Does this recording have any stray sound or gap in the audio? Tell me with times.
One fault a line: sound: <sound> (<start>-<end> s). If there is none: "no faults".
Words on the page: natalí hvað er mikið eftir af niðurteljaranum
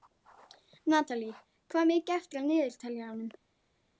no faults